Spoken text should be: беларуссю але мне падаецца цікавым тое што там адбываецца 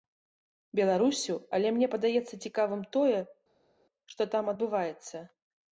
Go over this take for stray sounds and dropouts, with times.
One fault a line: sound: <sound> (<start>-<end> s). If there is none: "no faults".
no faults